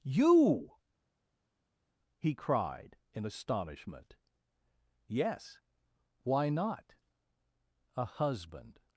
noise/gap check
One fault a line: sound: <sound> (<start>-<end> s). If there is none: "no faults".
no faults